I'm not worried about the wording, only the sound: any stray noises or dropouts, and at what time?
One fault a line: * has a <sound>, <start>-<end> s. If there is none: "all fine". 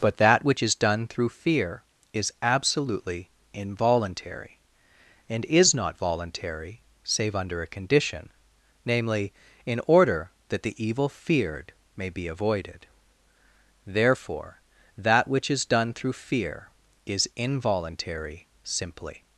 all fine